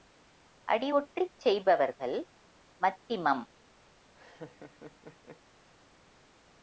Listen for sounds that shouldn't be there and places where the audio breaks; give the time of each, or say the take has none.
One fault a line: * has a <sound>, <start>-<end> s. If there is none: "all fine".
* has a laugh, 4.2-5.4 s